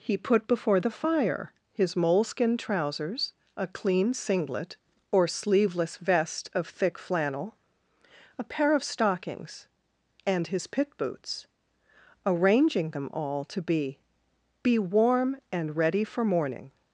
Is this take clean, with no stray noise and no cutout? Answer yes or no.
yes